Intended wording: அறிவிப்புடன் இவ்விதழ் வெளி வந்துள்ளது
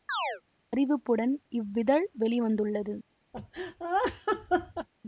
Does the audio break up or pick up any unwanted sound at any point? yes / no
yes